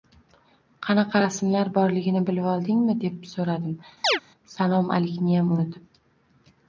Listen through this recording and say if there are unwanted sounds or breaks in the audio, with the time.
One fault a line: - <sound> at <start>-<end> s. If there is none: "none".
- chirp at 4.0-4.2 s